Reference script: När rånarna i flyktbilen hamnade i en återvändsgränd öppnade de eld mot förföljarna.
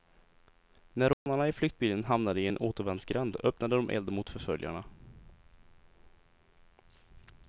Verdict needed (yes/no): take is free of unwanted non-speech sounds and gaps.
no